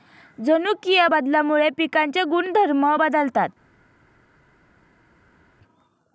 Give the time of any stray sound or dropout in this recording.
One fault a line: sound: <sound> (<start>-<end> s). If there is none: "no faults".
no faults